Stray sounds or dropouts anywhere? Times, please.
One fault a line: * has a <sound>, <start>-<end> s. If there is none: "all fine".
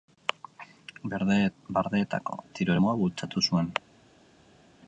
all fine